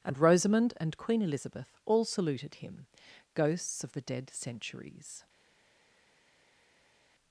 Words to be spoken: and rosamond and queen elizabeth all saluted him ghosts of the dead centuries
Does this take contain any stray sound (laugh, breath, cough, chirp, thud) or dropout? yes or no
no